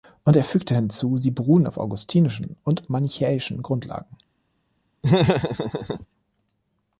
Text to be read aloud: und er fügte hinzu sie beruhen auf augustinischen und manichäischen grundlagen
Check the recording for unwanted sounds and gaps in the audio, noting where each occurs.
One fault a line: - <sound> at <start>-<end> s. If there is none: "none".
- laugh at 5.0-6.1 s